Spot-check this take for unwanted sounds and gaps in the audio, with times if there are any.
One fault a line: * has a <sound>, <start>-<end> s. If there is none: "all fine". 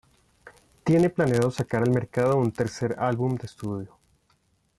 all fine